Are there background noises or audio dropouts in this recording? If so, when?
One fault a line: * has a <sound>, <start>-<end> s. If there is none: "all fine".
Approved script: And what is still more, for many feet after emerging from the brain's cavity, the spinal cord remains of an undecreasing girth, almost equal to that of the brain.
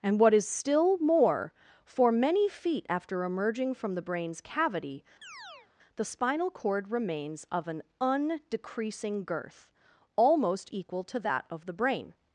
* has a chirp, 5.2-5.7 s